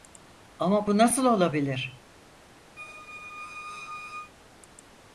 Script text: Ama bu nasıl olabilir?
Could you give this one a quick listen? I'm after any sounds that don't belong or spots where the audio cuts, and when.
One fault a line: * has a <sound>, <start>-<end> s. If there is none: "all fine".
* has a squeak, 2.8-4.3 s